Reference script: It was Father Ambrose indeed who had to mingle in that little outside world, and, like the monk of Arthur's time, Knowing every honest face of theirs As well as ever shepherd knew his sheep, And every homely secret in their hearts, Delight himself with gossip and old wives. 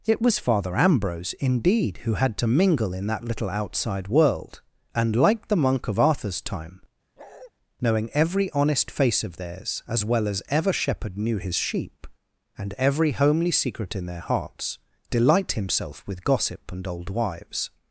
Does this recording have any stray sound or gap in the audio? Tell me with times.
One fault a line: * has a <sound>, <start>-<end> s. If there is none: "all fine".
* has a bark, 7.2-7.5 s